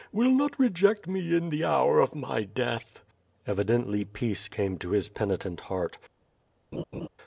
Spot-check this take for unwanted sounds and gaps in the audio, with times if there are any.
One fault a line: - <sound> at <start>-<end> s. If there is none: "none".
- laugh at 6.7-7.1 s